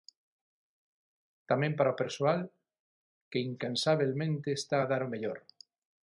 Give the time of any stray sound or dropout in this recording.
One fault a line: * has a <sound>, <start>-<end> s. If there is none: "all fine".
all fine